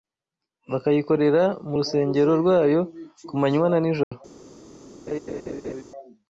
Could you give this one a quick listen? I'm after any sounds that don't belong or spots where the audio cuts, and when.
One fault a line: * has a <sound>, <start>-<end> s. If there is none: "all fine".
* has a dropout, 4.0-4.1 s
* has a laugh, 5.1-5.8 s